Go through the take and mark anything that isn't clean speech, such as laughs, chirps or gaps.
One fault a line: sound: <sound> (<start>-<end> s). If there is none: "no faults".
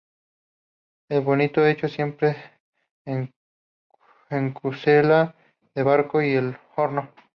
no faults